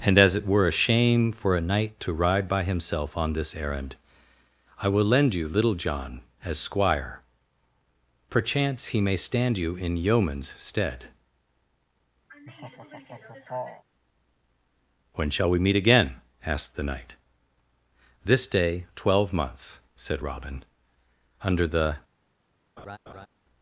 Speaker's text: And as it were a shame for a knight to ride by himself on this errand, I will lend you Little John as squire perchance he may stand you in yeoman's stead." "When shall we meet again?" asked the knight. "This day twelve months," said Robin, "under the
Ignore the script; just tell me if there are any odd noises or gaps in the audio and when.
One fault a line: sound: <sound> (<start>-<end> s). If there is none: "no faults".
sound: laugh (12.3-13.8 s)
sound: laugh (22.8-23.3 s)